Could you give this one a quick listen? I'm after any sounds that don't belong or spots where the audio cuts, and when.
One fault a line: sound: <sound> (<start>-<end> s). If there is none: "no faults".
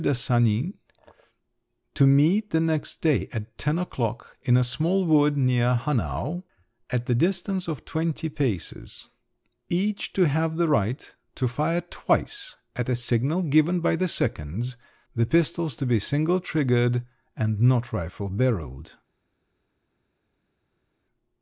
no faults